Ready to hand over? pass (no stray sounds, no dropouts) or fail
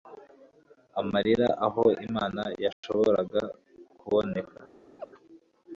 fail